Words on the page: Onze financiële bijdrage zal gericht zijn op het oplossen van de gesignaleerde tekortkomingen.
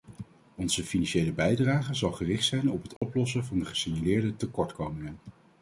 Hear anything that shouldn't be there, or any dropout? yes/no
yes